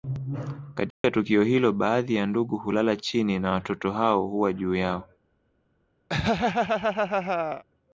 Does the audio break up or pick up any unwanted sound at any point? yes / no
yes